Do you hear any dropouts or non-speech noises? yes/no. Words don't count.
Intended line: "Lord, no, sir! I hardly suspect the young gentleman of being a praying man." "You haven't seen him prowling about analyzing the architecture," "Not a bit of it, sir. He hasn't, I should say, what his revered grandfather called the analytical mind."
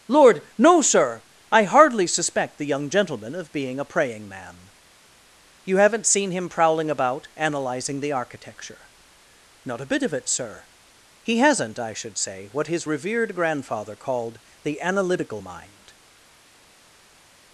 no